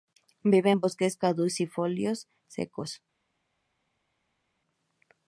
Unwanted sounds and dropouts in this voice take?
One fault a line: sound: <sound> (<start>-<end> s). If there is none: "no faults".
no faults